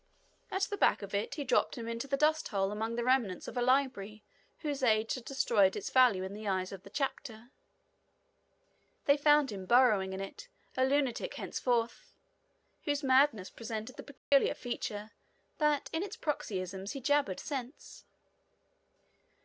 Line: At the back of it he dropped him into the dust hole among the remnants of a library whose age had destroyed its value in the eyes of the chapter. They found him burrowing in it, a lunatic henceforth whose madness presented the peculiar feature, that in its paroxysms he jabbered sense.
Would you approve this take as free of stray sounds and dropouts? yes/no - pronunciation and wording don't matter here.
no